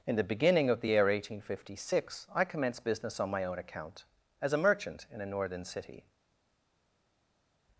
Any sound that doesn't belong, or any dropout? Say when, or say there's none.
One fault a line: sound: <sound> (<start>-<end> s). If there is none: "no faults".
no faults